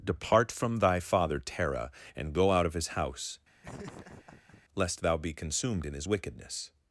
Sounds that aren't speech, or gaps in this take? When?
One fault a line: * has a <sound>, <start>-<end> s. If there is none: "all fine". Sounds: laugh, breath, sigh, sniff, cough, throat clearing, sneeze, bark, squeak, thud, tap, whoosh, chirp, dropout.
* has a laugh, 3.6-4.6 s